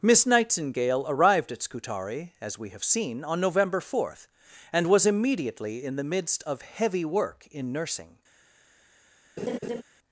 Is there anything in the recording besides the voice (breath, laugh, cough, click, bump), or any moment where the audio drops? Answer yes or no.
yes